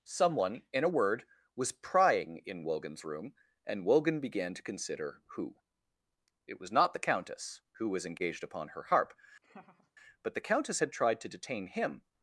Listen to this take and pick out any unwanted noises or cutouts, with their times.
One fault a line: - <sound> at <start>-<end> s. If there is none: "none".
- laugh at 9.4-9.9 s